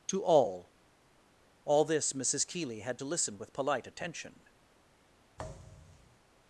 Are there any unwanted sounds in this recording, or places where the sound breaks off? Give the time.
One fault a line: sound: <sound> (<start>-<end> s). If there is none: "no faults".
sound: thud (5.4-6.2 s)